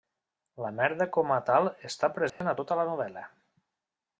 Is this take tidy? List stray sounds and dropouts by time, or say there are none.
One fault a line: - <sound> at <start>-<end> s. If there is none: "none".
- dropout at 2.3-2.4 s